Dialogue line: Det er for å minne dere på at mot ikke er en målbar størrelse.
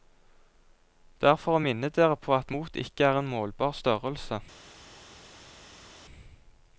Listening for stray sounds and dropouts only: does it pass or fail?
pass